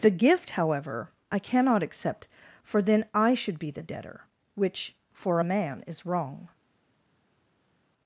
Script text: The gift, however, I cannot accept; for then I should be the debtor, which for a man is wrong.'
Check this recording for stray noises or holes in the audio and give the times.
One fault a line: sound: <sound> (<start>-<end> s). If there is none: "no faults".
no faults